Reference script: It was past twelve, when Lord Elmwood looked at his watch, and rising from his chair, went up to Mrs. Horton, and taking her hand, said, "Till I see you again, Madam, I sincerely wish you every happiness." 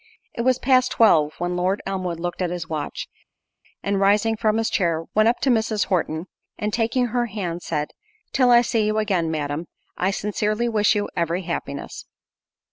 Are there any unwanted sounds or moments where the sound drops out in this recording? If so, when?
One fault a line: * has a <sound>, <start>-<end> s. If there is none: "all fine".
all fine